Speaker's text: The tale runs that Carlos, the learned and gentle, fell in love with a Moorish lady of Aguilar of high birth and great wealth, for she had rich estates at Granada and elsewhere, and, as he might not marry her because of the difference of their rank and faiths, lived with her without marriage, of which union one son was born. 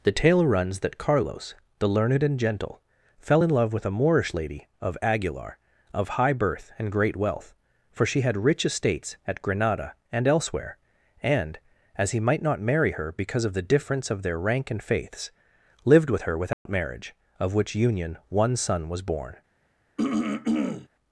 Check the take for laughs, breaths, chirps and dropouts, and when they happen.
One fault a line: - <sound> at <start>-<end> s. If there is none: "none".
- dropout at 16.5-16.7 s
- throat clearing at 20.0-20.9 s